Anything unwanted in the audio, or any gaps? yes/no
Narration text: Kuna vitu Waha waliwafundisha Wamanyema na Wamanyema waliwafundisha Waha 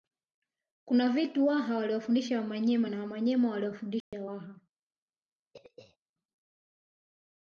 yes